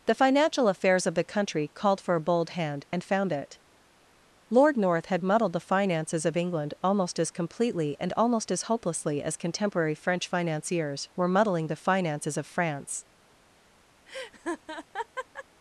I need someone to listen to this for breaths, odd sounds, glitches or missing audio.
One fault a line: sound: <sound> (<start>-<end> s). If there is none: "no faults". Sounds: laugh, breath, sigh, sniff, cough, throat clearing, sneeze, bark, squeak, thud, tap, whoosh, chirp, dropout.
sound: laugh (14.1-15.4 s)